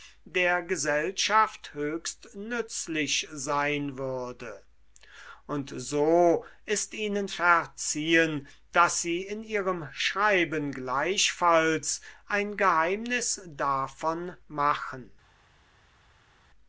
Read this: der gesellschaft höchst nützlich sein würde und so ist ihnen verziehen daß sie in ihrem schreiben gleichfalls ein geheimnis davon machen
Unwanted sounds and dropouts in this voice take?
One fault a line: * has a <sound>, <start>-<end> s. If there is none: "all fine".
all fine